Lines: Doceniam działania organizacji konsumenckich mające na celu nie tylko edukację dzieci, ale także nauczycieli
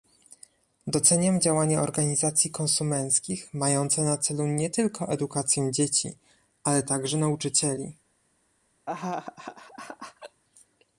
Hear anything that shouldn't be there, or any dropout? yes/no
yes